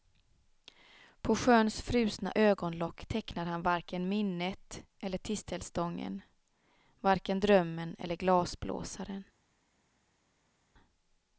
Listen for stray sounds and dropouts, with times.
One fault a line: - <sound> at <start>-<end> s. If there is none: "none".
none